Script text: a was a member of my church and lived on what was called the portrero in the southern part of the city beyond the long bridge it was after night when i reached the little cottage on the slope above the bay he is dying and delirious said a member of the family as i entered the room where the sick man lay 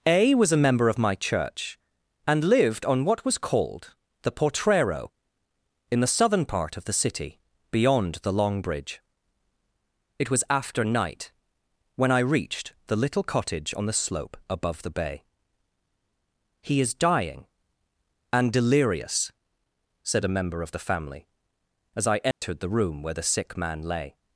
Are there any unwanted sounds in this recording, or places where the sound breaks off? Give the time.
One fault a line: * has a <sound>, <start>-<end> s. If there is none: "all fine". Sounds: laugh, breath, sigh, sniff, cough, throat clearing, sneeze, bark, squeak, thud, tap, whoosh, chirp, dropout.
* has a dropout, 22.3-22.4 s